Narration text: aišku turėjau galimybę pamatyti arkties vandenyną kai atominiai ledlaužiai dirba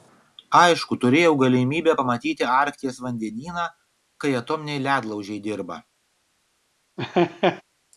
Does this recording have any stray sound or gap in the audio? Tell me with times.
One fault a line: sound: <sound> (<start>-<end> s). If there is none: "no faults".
sound: laugh (7.0-7.6 s)